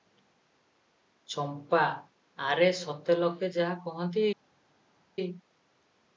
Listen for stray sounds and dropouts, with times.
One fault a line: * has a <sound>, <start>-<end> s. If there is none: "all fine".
all fine